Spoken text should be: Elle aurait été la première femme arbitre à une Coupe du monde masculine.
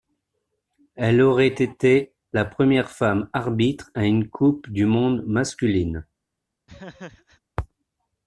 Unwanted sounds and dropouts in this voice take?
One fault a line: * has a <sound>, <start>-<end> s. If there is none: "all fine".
* has a laugh, 6.7-7.4 s